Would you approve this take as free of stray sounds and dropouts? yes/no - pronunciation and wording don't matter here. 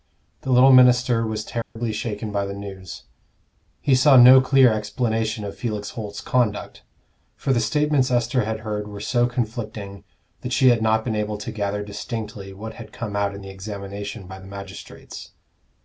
no